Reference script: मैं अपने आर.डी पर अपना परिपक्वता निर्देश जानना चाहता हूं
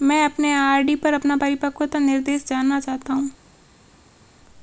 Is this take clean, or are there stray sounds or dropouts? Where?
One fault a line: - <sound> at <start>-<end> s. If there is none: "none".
none